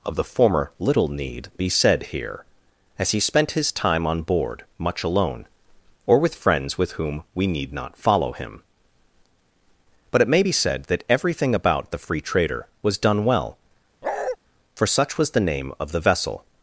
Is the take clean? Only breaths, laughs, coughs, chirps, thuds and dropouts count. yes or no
no